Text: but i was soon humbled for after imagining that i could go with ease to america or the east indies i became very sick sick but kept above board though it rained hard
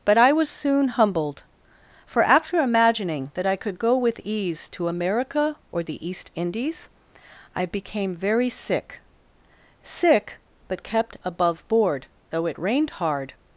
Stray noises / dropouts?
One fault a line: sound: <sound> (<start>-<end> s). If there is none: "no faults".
no faults